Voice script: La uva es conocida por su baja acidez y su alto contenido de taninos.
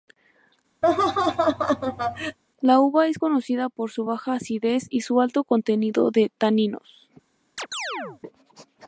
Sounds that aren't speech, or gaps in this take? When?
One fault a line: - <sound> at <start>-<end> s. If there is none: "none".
- laugh at 0.8-2.4 s
- chirp at 7.6-8.2 s